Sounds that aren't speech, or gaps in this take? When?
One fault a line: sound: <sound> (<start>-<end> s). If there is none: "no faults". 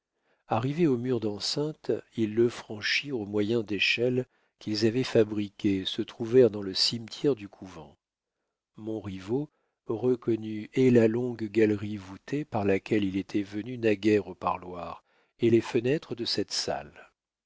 no faults